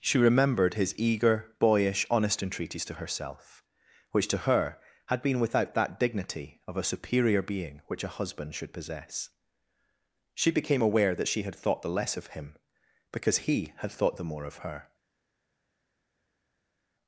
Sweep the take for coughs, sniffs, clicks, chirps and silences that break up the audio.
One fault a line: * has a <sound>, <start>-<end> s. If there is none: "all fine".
all fine